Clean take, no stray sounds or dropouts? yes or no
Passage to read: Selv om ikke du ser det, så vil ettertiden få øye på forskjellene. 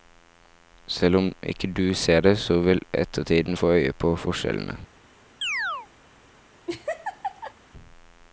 no